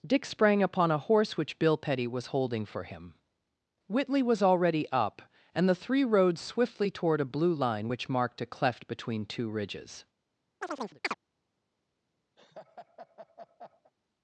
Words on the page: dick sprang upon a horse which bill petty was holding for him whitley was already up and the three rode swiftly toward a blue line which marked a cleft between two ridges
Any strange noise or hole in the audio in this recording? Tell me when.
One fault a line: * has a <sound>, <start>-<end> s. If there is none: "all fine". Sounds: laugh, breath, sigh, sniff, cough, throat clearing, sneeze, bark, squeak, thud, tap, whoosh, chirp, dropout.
* has a chirp, 10.6-11.1 s
* has a laugh, 12.4-13.9 s